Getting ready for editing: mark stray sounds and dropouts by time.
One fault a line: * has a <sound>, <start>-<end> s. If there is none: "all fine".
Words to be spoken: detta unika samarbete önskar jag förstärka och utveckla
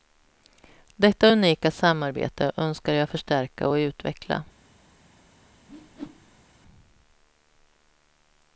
* has a whoosh, 5.7-6.4 s